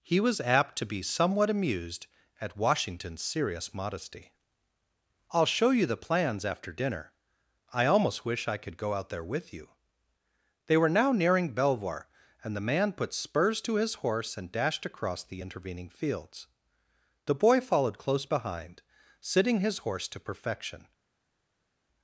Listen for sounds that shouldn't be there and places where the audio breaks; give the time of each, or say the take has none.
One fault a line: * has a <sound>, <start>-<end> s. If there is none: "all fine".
all fine